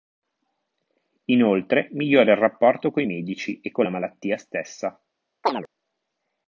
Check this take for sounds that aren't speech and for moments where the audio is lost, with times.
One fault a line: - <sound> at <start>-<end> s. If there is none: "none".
- chirp at 5.4-5.7 s